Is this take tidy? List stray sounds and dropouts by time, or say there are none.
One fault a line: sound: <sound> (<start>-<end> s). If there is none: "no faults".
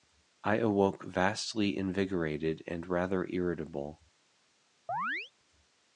sound: chirp (4.9-5.3 s)